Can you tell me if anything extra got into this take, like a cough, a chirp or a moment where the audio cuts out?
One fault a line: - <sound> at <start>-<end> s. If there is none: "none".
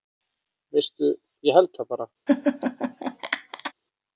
- laugh at 2.3-3.7 s